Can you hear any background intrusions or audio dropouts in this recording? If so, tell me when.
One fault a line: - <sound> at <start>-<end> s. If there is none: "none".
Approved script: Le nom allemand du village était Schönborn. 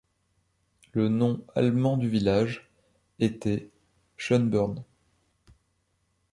none